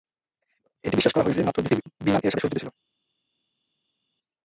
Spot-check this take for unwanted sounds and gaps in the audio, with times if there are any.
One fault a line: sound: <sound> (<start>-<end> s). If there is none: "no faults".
no faults